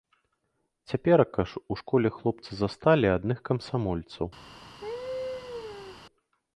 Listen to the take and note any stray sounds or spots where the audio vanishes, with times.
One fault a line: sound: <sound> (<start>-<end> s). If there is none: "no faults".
sound: laugh (4.8-6.0 s)